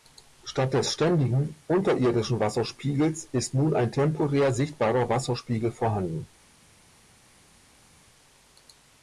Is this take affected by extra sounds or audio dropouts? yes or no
no